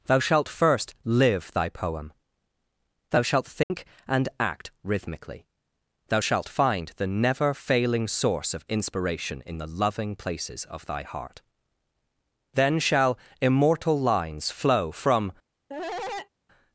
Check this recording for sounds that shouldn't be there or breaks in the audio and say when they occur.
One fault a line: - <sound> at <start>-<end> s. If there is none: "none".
- dropout at 3.6-3.7 s
- cough at 15.7-16.3 s